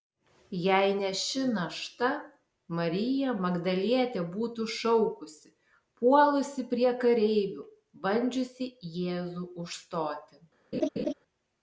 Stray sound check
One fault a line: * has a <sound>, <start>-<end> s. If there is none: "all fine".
* has a laugh, 10.7-11.1 s